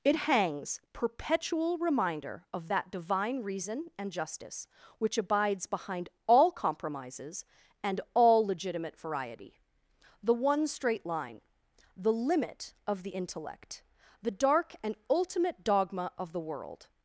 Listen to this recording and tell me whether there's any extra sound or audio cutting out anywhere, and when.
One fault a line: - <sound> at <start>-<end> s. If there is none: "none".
none